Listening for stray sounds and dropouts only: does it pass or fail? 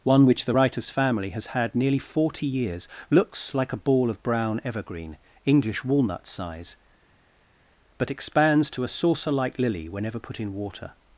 pass